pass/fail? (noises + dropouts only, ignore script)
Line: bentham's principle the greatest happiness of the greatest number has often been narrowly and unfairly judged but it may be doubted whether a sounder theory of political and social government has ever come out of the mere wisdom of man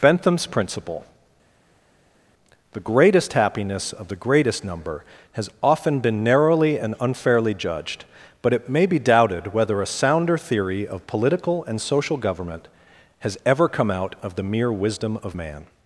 pass